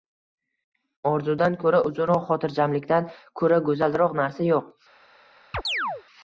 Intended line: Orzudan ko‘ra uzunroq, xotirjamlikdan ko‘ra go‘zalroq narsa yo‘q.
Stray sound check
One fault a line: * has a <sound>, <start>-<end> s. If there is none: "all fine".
* has a chirp, 5.5-6.0 s